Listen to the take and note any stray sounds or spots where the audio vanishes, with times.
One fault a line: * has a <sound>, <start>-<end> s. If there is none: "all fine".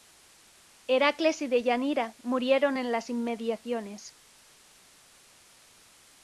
all fine